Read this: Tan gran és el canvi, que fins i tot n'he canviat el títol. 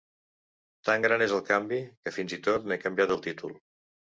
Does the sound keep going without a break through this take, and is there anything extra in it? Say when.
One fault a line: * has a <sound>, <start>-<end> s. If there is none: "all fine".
all fine